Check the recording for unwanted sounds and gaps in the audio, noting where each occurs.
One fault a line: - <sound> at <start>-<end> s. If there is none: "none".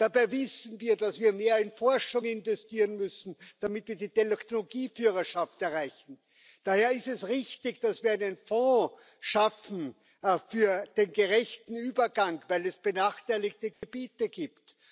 - dropout at 13.7-13.8 s